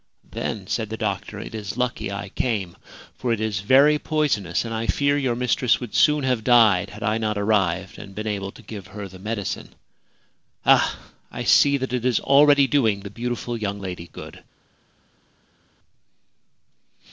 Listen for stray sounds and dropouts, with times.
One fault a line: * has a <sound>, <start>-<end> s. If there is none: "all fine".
all fine